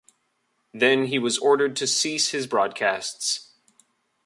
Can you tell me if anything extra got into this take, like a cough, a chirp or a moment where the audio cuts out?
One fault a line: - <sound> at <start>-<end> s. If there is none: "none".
none